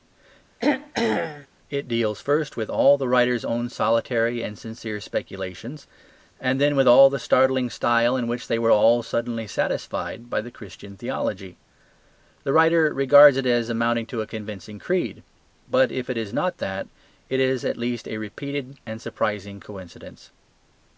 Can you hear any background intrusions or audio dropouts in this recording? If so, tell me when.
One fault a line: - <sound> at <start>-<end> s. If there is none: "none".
- throat clearing at 0.6-1.5 s